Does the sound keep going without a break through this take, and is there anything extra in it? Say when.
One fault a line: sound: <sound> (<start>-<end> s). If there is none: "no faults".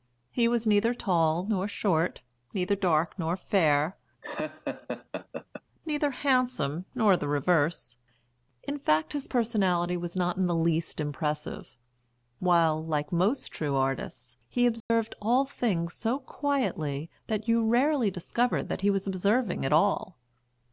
sound: laugh (4.2-5.6 s)
sound: dropout (14.8-14.9 s)